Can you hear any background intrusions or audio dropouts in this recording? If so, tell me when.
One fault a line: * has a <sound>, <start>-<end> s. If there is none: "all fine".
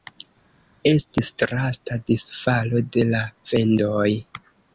all fine